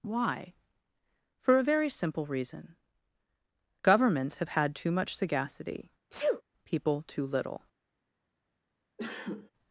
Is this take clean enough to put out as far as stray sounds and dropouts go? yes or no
no